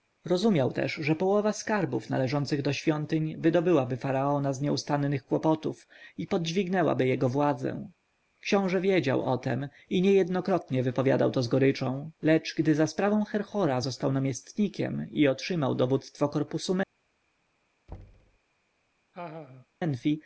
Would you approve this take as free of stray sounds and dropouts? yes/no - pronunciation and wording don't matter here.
no